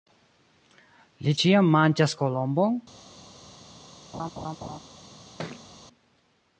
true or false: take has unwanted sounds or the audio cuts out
true